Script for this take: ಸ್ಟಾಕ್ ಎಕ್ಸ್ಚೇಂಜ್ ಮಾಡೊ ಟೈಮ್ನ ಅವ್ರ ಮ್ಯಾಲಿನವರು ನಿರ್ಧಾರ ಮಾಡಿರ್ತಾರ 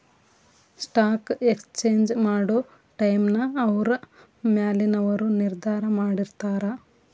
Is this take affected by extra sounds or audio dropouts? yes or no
no